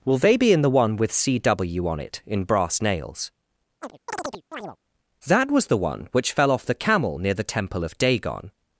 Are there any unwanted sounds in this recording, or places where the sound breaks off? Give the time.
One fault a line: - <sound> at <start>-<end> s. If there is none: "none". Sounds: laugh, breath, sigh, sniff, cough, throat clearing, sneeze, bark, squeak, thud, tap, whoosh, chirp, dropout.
- chirp at 3.8-4.8 s